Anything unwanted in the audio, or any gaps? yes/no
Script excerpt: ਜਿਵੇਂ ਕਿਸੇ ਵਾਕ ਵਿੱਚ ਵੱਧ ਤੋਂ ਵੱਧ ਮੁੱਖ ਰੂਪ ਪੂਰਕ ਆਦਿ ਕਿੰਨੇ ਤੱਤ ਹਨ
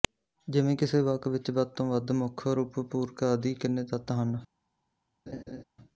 yes